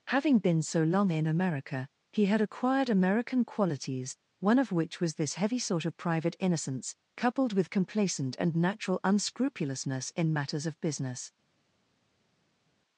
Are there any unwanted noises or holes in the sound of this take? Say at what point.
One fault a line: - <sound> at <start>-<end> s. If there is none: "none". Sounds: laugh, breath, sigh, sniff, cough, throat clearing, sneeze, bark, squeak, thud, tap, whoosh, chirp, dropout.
none